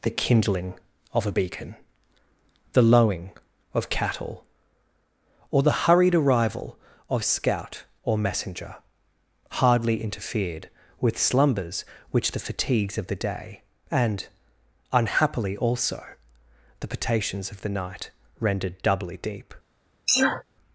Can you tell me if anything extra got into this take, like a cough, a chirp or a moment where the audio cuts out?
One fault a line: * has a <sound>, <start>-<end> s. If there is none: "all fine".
* has a sneeze, 20.1-20.4 s